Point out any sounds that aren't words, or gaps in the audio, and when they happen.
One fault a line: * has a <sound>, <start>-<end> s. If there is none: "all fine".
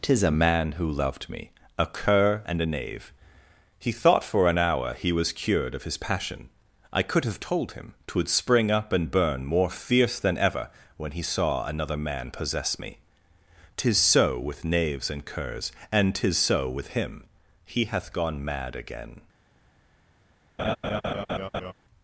* has a laugh, 20.6-21.7 s